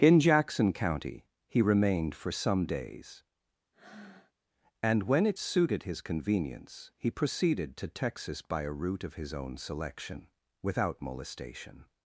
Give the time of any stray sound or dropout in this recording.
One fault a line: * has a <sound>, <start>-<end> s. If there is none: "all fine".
* has a breath, 3.7-4.3 s